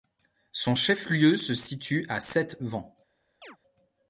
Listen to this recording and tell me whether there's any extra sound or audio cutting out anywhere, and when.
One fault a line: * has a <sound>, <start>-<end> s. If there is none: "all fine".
* has a chirp, 3.4-3.6 s